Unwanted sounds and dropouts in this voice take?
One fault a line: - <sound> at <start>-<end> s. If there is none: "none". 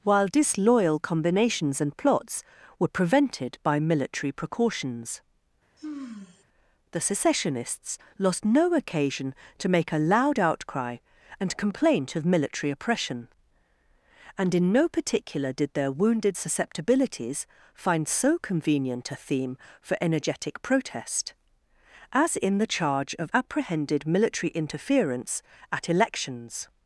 - sigh at 5.8-6.4 s